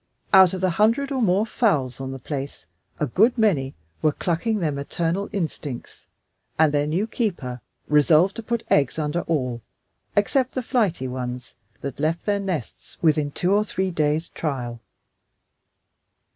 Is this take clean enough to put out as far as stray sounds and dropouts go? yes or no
yes